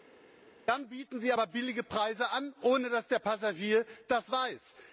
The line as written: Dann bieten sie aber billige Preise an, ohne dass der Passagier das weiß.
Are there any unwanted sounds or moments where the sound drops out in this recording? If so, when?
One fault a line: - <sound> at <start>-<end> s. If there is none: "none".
none